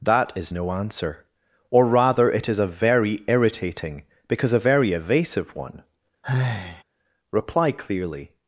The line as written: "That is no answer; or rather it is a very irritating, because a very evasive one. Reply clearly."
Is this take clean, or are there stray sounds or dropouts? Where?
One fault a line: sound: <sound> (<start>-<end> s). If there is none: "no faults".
sound: sigh (6.2-6.8 s)